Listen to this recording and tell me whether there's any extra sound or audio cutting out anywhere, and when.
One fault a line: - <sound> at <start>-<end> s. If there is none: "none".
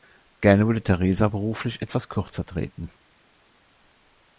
none